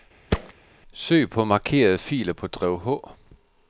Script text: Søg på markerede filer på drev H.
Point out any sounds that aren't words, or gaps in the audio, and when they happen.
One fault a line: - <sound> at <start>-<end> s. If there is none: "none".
- thud at 0.3-0.5 s